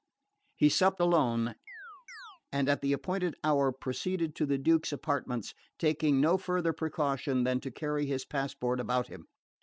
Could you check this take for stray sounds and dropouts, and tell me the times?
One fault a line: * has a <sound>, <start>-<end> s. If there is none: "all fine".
* has a chirp, 1.7-2.4 s